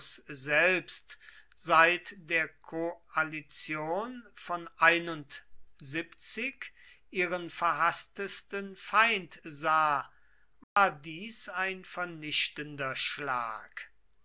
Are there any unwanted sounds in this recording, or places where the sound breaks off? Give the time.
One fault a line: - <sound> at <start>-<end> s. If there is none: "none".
- dropout at 10.6-10.8 s